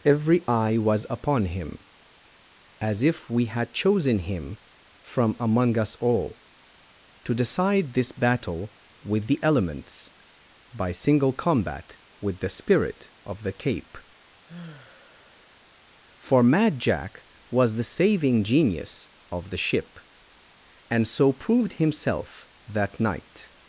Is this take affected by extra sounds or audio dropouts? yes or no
yes